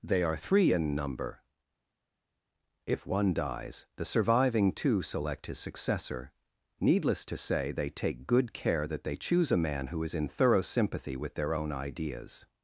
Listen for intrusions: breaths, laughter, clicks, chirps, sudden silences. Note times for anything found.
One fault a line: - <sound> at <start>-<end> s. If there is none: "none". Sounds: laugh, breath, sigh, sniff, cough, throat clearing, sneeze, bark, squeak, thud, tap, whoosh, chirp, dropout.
none